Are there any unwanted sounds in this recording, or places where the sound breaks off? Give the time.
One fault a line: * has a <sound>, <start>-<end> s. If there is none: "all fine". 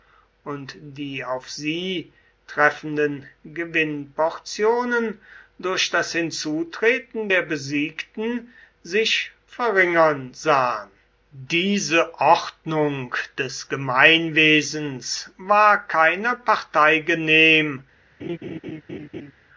* has a laugh, 18.2-19.3 s